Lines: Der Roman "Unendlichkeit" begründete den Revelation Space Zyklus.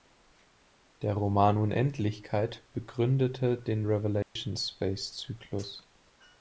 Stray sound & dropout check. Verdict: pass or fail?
fail